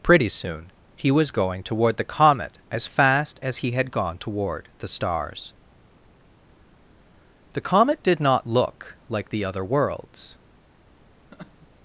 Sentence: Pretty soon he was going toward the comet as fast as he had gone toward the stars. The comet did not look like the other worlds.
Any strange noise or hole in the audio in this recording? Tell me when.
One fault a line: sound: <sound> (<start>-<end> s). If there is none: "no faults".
sound: laugh (11.3-11.7 s)